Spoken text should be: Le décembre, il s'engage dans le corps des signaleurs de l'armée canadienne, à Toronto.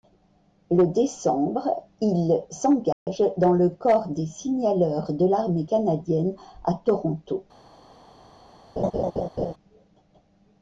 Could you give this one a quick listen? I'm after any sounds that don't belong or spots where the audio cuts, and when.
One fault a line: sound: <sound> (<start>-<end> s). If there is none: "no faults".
sound: dropout (2.9-3.1 s)
sound: laugh (8.8-9.5 s)